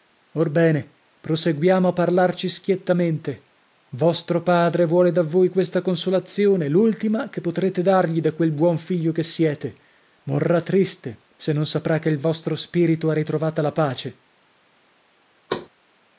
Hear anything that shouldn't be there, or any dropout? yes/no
yes